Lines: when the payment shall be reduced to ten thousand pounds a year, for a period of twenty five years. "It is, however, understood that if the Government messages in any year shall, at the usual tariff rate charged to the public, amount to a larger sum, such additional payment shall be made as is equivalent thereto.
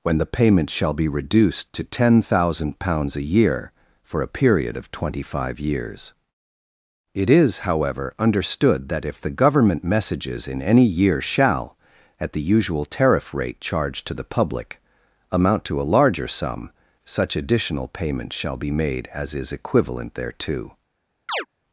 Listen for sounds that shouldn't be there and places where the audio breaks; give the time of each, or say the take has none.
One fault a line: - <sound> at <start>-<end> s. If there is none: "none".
- chirp at 21.3-21.5 s